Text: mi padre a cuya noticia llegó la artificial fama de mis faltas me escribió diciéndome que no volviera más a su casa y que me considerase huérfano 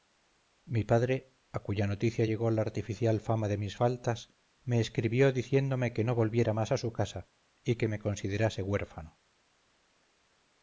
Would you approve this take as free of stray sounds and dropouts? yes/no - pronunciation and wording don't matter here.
yes